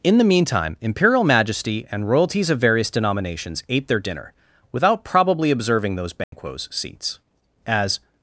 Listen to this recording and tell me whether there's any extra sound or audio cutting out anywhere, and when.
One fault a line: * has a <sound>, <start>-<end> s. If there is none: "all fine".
* has a dropout, 6.2-6.3 s